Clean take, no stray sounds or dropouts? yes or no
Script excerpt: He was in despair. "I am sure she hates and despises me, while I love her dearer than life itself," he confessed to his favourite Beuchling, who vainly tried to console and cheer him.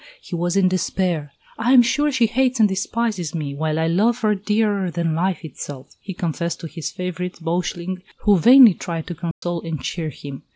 no